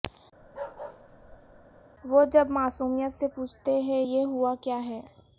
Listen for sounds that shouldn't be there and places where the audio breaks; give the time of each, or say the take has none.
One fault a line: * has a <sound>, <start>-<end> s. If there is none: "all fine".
* has a bark, 0.4-1.8 s